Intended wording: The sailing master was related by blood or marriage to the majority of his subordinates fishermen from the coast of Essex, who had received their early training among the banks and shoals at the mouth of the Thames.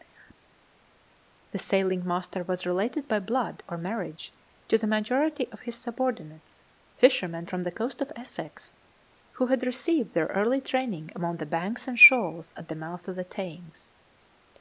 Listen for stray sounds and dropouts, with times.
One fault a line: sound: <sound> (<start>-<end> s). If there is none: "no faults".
no faults